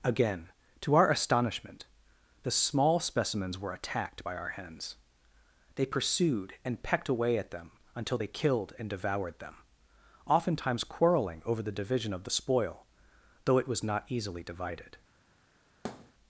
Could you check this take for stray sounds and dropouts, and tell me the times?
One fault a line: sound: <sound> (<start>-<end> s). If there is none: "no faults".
sound: thud (15.8-16.1 s)